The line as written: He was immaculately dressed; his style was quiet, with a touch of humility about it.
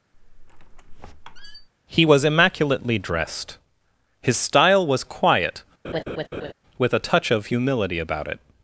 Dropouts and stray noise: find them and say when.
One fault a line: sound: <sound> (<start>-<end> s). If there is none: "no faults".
sound: squeak (0.1-1.7 s)
sound: laugh (5.8-6.5 s)